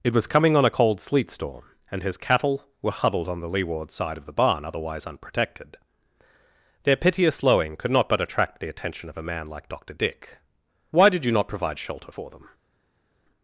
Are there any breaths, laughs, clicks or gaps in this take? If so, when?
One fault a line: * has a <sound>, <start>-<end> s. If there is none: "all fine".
all fine